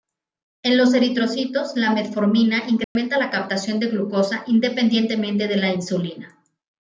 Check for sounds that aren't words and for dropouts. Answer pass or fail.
fail